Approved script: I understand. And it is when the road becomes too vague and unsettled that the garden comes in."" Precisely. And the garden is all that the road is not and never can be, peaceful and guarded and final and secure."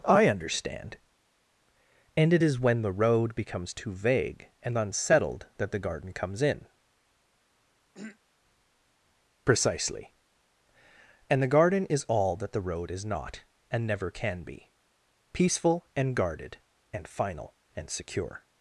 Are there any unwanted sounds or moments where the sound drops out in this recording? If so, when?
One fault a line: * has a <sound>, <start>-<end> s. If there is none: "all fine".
* has a throat clearing, 7.9-8.2 s